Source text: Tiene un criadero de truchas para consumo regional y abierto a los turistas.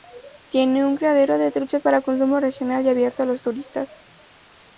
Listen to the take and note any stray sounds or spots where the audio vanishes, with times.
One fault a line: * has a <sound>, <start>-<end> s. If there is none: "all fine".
all fine